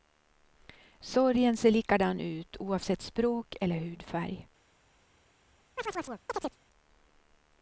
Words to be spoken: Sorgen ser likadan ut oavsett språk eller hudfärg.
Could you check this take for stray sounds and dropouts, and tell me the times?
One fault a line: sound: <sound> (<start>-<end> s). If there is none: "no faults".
sound: chirp (5.8-6.6 s)